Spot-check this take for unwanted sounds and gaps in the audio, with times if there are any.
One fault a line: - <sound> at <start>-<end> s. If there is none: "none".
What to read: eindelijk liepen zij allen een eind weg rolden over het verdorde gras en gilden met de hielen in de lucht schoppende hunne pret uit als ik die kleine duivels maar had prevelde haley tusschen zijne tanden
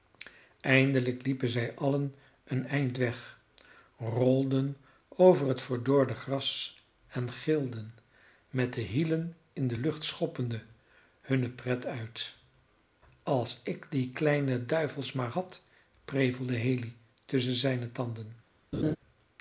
- laugh at 18.7-19.0 s